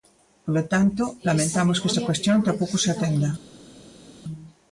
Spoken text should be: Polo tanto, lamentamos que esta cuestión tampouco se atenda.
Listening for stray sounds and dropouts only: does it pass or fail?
pass